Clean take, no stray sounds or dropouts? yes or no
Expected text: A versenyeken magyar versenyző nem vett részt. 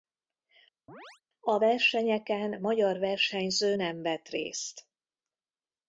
no